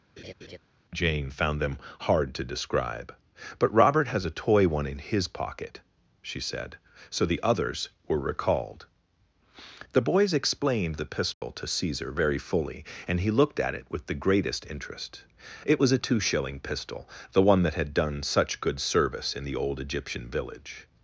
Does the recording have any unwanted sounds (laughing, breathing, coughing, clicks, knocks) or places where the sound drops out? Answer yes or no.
yes